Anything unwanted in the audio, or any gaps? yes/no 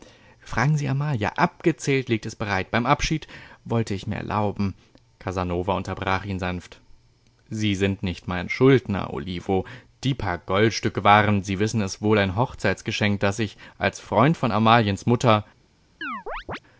yes